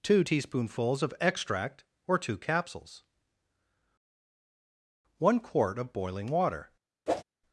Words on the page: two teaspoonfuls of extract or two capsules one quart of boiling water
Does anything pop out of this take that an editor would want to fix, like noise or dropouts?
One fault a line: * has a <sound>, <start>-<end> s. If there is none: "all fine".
* has a whoosh, 7.1-7.2 s